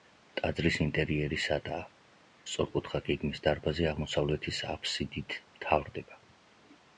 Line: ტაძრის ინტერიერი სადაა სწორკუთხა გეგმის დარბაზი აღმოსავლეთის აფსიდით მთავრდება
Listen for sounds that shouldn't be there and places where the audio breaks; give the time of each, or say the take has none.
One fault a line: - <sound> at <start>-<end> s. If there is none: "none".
none